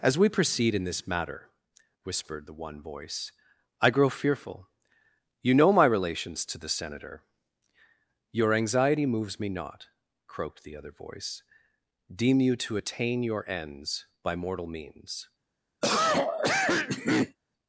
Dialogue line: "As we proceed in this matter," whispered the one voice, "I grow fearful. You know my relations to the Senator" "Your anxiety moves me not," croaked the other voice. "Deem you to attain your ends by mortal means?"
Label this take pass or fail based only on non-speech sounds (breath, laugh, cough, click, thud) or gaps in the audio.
fail